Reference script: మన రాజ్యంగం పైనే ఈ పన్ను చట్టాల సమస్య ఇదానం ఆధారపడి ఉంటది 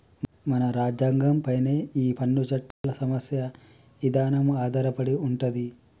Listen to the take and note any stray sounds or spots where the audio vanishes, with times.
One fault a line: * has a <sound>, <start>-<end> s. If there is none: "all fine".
* has a dropout, 2.7-2.8 s